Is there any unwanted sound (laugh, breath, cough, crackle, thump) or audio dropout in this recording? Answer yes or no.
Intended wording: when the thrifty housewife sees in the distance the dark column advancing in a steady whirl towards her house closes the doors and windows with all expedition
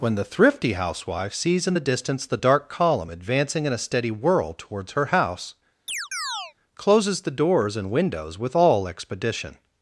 yes